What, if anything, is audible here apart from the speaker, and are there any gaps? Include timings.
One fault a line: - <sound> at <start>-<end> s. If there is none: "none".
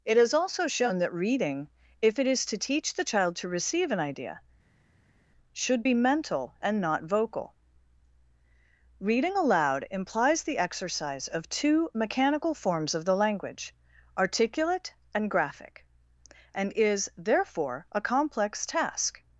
none